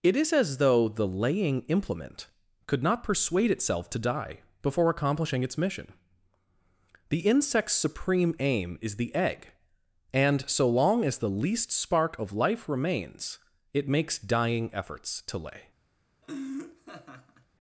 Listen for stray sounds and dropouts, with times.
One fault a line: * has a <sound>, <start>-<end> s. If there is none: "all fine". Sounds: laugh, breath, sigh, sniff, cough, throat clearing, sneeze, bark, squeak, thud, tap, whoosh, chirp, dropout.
* has a laugh, 16.2-17.5 s